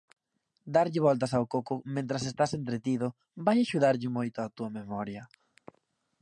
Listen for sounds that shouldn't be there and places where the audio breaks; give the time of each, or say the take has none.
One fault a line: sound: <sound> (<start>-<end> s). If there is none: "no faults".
no faults